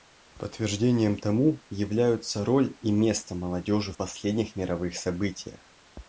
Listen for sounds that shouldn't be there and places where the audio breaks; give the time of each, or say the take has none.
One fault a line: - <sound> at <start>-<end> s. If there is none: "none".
none